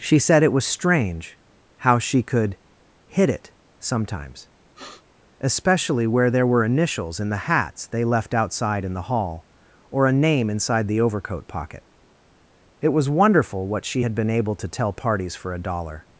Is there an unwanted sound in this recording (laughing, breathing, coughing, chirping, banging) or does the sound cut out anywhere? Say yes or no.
yes